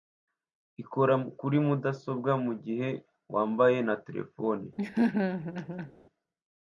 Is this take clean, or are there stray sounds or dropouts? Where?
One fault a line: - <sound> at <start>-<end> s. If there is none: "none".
- laugh at 4.8-5.9 s